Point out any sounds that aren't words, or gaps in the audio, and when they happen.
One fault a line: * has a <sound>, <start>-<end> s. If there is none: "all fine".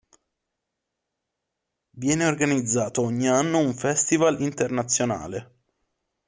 all fine